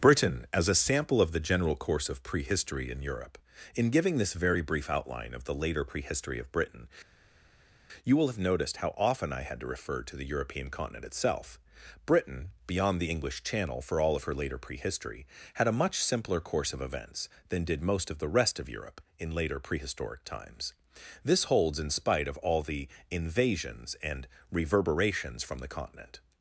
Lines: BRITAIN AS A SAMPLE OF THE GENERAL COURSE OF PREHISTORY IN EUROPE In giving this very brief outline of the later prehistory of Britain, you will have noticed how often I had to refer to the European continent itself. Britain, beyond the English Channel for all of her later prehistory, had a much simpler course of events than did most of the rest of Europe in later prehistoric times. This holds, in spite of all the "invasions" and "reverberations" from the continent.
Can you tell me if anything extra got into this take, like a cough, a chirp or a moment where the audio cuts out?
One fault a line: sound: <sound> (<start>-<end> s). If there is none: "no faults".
no faults